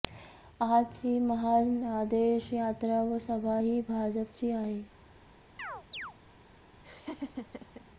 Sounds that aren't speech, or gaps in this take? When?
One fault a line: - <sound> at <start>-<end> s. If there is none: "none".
- chirp at 5.6-6.1 s
- laugh at 6.8-7.9 s